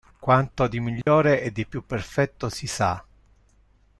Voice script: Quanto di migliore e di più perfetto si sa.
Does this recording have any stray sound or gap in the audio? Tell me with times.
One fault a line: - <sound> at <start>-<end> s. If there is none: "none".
- dropout at 1.0-1.1 s